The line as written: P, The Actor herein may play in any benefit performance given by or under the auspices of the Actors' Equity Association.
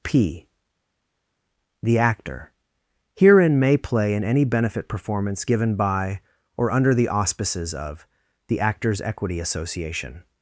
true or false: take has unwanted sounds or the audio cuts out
false